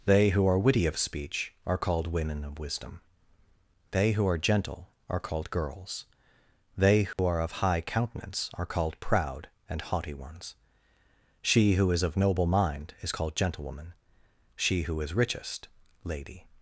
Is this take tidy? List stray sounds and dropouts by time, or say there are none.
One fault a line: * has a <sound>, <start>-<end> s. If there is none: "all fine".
* has a dropout, 7.1-7.2 s